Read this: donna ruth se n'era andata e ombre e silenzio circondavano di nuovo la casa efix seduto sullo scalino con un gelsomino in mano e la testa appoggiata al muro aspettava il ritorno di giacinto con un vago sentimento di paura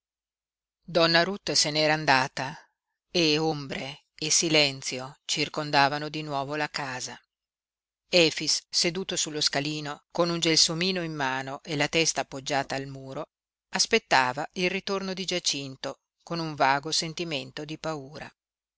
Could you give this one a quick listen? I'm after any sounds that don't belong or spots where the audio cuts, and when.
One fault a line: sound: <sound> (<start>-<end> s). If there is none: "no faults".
no faults